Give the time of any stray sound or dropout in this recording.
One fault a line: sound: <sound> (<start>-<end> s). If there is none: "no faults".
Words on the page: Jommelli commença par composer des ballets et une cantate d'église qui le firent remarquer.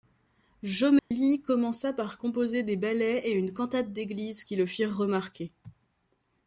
sound: dropout (1.0-1.1 s)